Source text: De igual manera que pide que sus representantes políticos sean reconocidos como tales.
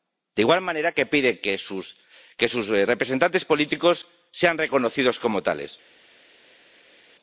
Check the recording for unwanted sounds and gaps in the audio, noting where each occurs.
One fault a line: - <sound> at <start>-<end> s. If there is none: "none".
none